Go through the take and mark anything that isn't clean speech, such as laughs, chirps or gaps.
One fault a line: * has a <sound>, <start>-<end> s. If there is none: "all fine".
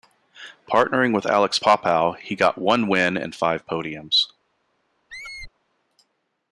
* has a squeak, 5.1-5.5 s